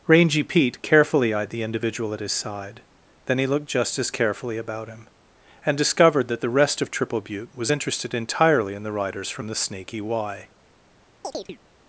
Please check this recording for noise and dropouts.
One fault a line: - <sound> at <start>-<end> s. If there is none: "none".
- chirp at 11.2-11.6 s